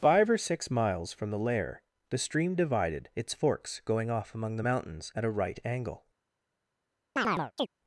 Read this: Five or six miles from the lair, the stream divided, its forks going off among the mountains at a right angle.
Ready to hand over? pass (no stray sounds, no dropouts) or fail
fail